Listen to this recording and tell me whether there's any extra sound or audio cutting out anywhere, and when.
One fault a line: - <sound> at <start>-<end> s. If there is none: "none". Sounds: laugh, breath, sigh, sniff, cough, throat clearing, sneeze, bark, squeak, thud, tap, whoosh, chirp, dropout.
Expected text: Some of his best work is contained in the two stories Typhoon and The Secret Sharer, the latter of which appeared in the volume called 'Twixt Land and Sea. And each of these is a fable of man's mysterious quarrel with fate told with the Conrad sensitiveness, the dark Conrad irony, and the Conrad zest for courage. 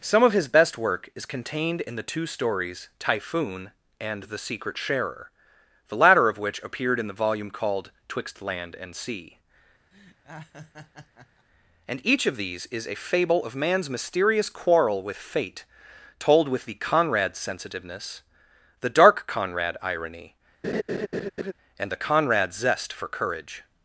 - laugh at 9.9-11.5 s
- laugh at 20.6-21.5 s